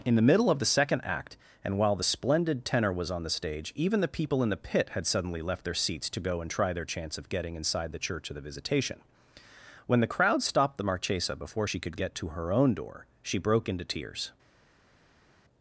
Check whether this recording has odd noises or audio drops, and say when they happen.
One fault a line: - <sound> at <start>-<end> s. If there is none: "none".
none